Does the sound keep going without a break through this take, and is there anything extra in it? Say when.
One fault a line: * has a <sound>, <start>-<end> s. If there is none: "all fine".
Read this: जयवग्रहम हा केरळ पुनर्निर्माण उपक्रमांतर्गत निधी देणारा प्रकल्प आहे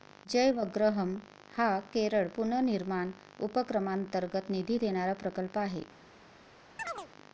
* has a chirp, 6.8-7.1 s